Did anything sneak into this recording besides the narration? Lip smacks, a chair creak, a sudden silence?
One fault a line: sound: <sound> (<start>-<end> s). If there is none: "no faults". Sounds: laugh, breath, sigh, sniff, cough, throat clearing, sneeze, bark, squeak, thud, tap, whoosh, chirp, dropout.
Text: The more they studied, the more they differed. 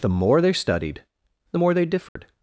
sound: dropout (2.1-2.2 s)